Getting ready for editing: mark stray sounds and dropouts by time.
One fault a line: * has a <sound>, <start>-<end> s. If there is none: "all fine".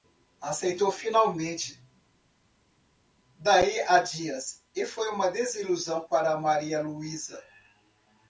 all fine